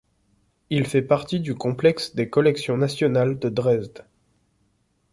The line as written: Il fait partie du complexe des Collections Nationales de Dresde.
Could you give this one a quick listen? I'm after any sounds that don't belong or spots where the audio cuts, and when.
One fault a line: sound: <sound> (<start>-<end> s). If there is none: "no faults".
no faults